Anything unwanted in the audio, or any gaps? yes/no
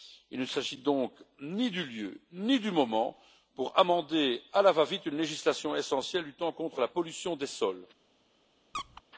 yes